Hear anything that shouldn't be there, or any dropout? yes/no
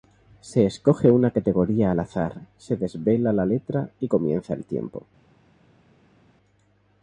no